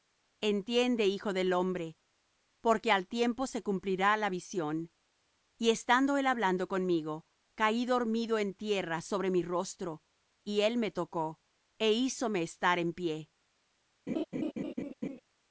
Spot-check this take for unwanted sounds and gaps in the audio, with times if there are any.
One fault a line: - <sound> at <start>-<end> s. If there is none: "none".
- laugh at 14.1-15.2 s